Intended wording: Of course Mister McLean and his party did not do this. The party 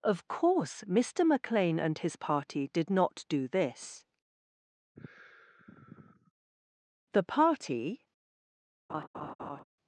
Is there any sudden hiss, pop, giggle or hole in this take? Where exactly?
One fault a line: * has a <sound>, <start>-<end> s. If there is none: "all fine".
* has a sigh, 5.0-6.3 s
* has a laugh, 8.9-9.6 s